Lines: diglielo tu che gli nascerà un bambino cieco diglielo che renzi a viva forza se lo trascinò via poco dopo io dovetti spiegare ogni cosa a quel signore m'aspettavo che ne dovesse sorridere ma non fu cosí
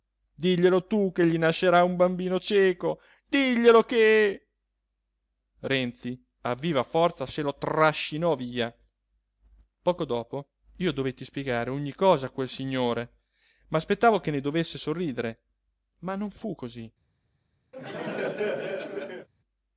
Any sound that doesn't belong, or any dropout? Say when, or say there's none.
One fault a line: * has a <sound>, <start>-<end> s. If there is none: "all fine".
* has a laugh, 17.7-19.3 s